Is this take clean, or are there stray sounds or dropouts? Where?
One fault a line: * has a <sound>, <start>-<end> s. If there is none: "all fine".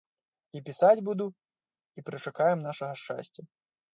all fine